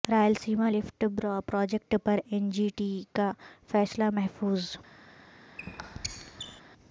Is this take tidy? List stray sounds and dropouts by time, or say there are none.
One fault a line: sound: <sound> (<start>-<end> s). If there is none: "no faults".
sound: squeak (5.6-6.6 s)